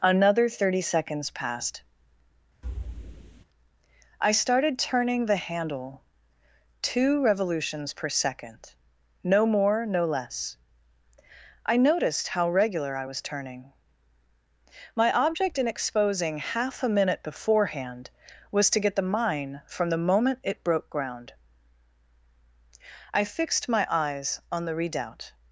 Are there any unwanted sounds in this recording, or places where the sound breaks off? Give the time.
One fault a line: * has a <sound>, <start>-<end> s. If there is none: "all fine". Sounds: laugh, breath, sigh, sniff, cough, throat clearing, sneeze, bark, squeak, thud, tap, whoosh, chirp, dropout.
* has a thud, 2.6-3.4 s